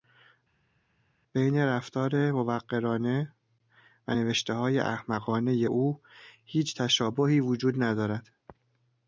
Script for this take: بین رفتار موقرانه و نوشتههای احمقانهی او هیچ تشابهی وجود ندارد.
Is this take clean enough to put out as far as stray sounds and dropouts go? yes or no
yes